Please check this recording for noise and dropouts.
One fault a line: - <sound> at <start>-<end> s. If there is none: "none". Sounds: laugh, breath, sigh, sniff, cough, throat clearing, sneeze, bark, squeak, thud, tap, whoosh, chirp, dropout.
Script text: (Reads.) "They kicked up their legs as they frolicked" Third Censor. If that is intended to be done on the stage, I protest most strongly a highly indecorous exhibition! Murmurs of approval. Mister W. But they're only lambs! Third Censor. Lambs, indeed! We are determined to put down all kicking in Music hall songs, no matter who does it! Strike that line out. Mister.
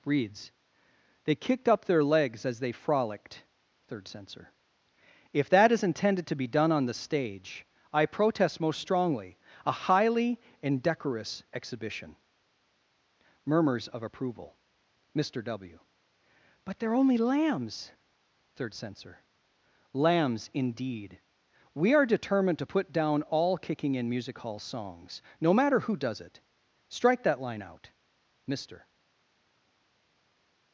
none